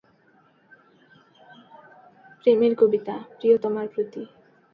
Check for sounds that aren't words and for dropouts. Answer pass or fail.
pass